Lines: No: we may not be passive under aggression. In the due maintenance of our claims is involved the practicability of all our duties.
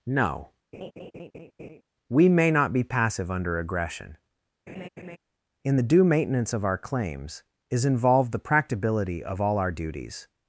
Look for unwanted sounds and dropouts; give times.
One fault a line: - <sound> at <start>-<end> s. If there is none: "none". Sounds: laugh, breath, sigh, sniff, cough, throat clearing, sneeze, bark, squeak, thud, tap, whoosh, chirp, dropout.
- laugh at 0.7-1.8 s
- laugh at 4.7-5.2 s